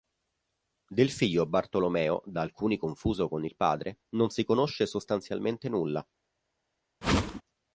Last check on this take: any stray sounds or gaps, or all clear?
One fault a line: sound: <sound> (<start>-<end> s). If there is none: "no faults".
sound: whoosh (7.0-7.4 s)